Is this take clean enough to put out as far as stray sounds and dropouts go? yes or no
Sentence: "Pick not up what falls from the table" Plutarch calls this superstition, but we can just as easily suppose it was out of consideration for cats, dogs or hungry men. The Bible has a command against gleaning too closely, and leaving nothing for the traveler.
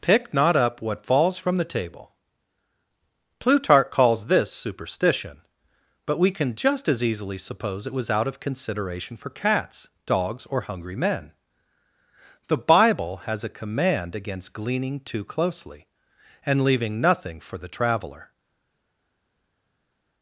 yes